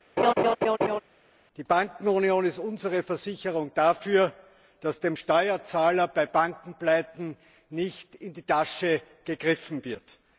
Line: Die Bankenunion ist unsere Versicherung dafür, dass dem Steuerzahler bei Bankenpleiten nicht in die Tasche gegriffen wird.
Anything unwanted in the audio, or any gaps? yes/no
yes